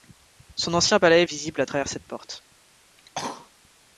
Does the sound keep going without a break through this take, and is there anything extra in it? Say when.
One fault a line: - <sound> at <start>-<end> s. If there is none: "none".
- cough at 3.0-3.5 s